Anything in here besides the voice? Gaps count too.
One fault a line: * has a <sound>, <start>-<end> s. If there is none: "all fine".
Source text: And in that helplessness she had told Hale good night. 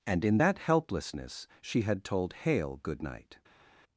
all fine